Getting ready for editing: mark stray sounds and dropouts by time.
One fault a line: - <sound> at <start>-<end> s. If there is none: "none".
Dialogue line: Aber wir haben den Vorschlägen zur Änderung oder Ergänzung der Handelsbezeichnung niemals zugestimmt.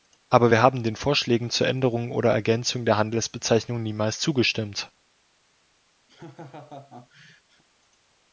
- laugh at 6.1-7.6 s